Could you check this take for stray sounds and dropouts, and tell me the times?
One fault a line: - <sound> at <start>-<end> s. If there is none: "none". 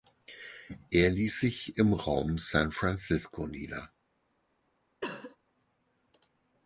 - cough at 5.0-5.4 s